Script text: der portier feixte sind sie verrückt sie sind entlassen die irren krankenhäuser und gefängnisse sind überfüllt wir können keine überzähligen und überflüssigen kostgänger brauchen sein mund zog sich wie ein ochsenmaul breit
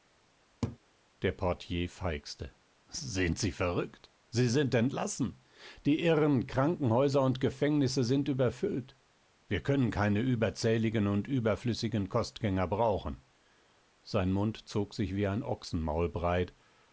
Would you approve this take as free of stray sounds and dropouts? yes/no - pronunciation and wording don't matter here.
no